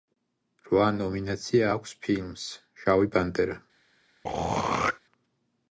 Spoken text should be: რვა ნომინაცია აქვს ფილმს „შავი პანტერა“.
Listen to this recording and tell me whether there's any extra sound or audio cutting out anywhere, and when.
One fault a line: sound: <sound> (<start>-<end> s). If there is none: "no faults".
sound: throat clearing (4.2-5.0 s)